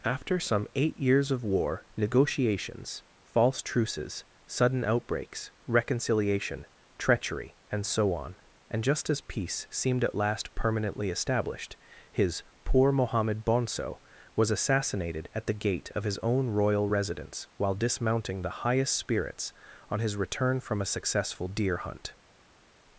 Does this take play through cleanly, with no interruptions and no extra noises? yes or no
yes